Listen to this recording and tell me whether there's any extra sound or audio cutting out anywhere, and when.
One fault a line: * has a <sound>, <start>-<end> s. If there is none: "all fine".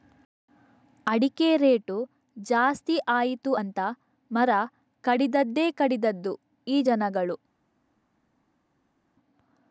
all fine